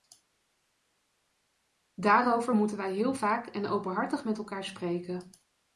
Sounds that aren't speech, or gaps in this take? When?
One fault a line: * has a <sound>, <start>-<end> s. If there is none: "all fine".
all fine